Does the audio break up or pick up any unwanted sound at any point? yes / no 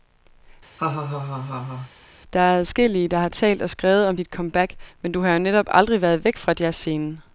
yes